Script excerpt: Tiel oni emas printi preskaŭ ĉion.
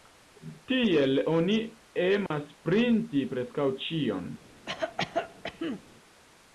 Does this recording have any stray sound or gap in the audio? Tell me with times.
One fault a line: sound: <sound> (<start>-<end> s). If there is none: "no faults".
sound: dropout (2.3-2.3 s)
sound: cough (4.7-5.8 s)